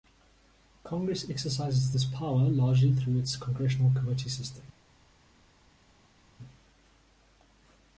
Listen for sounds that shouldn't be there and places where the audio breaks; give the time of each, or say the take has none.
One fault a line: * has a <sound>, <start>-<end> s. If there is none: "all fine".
all fine